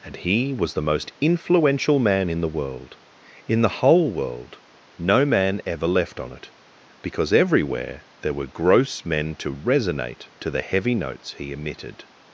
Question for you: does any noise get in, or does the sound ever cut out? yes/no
no